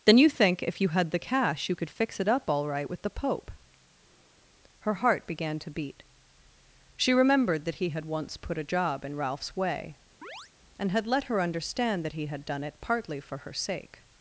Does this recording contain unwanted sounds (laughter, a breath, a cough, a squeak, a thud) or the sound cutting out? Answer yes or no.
yes